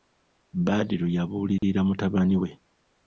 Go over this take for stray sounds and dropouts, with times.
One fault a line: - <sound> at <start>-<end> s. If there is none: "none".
- dropout at 1.6-1.6 s